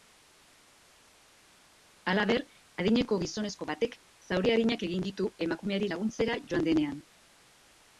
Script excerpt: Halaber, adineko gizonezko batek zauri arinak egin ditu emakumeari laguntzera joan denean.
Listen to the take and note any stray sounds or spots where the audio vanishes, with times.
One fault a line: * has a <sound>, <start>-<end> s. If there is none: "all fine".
all fine